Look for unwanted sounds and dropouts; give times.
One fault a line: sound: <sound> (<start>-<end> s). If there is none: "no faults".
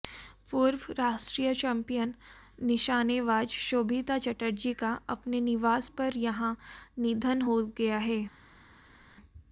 no faults